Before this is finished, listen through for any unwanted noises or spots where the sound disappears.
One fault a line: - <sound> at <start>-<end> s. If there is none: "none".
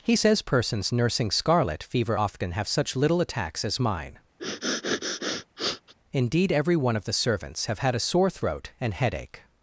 - sniff at 4.4-5.9 s